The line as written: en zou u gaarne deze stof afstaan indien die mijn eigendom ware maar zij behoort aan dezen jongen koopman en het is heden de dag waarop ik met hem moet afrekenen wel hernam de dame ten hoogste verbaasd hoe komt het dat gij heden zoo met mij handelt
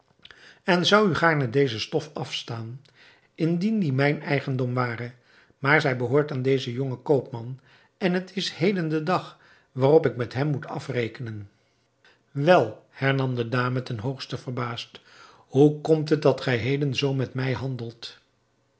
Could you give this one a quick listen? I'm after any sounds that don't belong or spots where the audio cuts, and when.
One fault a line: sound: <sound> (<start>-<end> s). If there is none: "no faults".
no faults